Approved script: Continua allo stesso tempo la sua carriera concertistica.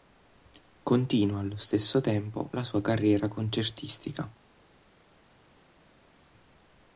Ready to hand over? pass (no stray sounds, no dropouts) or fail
pass